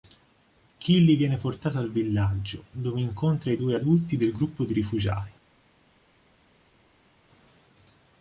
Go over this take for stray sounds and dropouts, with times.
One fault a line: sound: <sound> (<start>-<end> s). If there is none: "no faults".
no faults